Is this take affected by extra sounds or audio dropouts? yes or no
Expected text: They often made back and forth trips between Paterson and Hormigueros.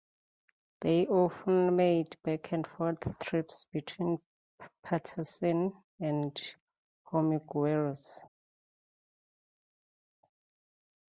no